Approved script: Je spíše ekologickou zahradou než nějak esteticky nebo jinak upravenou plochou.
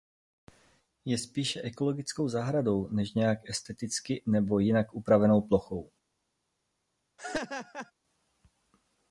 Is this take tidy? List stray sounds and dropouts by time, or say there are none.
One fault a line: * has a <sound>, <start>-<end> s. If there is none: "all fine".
* has a laugh, 7.2-7.9 s